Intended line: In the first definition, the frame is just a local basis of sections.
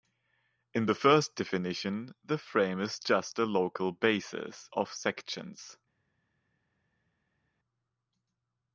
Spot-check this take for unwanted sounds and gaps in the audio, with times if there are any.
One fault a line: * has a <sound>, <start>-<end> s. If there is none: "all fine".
all fine